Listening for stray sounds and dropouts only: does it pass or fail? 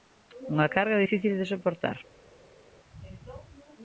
pass